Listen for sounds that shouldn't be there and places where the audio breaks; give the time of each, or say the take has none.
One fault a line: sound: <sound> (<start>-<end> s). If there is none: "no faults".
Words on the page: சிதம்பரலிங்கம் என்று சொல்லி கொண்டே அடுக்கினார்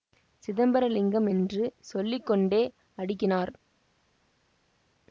no faults